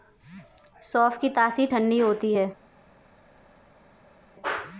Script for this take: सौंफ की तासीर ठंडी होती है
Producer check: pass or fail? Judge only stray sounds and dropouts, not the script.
pass